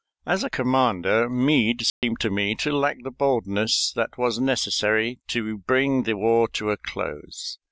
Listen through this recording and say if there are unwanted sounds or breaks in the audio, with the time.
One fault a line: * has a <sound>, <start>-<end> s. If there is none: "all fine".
* has a dropout, 1.9-2.0 s